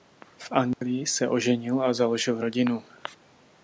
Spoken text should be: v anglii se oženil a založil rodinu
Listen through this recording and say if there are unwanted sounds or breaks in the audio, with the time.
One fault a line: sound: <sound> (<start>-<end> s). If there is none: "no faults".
sound: dropout (0.7-0.8 s)